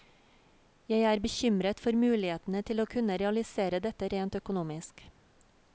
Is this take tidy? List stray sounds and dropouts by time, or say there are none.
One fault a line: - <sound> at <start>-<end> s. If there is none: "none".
none